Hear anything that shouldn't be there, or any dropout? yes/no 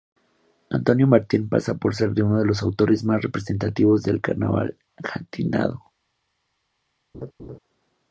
yes